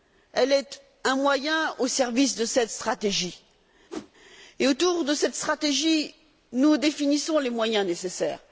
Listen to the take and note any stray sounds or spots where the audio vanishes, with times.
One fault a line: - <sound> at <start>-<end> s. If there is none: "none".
- whoosh at 3.9-4.1 s